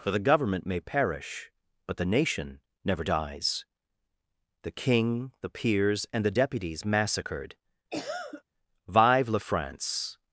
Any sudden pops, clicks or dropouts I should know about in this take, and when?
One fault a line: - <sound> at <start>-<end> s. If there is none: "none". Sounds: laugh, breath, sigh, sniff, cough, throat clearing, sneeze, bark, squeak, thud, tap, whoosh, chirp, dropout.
- cough at 7.9-8.4 s